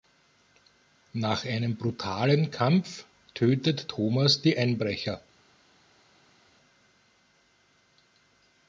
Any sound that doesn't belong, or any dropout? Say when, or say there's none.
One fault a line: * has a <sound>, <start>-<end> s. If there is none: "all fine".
all fine